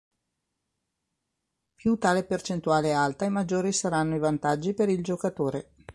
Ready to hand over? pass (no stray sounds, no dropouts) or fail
pass